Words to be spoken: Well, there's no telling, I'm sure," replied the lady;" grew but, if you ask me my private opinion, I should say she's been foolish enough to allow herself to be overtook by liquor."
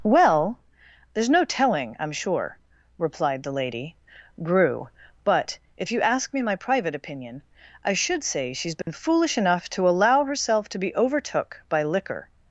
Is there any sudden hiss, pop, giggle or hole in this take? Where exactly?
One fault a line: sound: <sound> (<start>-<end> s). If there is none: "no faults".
sound: dropout (8.8-8.9 s)